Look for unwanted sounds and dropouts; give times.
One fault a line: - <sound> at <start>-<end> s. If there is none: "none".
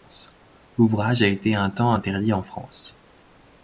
none